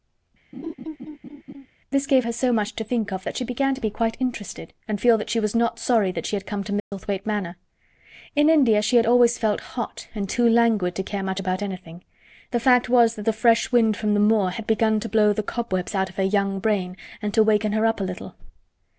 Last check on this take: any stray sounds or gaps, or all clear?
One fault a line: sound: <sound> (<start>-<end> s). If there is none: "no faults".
sound: laugh (0.5-1.7 s)
sound: dropout (6.8-6.9 s)